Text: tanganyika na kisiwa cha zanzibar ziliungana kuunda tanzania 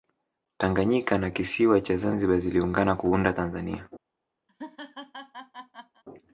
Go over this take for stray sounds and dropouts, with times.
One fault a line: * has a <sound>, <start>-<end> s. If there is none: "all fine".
* has a laugh, 4.5-6.0 s